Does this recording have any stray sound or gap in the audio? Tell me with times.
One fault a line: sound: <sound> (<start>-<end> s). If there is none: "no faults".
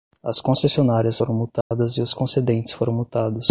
sound: dropout (1.6-1.7 s)